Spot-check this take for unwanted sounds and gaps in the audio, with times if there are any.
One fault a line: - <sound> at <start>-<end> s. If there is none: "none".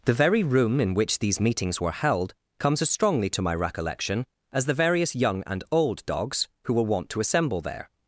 none